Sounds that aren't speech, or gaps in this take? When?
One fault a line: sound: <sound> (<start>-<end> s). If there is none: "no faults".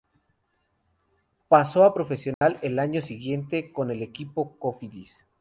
sound: dropout (2.3-2.4 s)